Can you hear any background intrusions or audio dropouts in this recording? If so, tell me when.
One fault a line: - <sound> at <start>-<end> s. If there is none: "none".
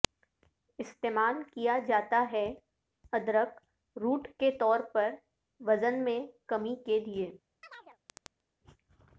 - chirp at 7.6-8.4 s